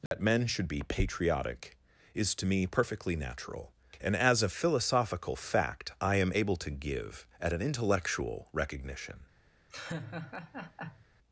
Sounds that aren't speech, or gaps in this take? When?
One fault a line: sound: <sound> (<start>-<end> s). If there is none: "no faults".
sound: dropout (0.1-0.1 s)
sound: laugh (9.7-11.1 s)